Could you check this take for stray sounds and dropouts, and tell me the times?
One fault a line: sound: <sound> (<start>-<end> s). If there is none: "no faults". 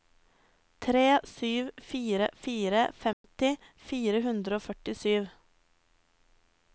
sound: dropout (3.1-3.2 s)